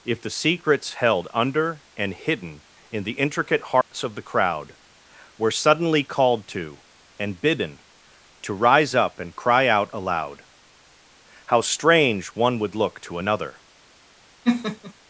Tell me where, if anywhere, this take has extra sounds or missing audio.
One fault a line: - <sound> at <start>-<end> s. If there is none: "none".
- dropout at 3.8-3.9 s
- laugh at 14.4-14.9 s